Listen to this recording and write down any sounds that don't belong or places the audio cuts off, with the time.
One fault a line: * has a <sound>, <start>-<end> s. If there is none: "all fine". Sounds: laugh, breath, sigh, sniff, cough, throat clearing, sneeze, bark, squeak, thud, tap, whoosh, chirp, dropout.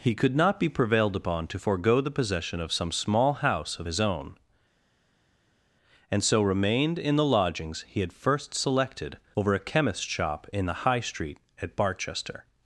all fine